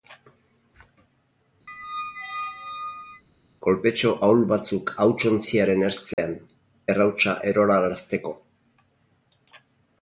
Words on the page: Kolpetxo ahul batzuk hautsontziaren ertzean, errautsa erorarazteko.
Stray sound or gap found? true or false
true